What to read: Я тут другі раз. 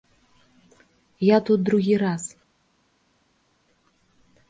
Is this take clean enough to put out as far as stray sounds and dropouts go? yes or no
yes